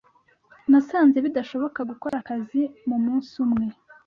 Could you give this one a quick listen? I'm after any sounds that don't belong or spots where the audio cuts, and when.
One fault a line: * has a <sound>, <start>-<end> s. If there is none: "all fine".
* has a dropout, 2.1-2.1 s